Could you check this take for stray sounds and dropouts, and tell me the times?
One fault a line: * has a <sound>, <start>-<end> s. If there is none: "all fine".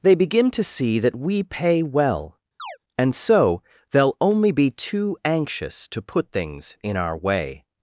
* has a chirp, 2.6-2.8 s